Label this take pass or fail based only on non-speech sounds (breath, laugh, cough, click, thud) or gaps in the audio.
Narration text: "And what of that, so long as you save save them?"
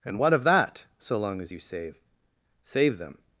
pass